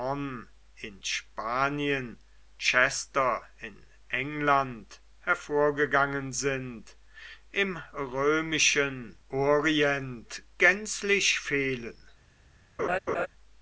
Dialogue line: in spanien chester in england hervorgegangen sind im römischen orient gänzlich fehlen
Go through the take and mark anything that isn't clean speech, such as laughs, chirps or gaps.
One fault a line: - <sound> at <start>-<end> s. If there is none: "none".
- laugh at 12.8-13.3 s